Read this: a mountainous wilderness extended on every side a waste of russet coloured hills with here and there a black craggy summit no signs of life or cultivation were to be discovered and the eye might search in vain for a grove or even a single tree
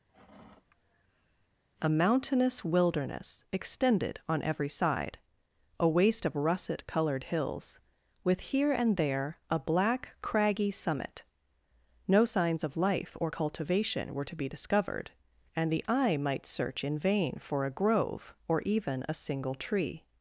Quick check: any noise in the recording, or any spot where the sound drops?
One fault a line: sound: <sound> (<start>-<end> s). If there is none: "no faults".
sound: sigh (0.1-1.5 s)